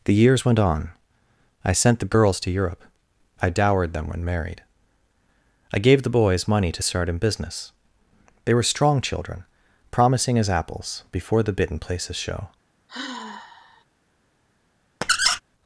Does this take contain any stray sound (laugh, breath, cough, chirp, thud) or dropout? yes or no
yes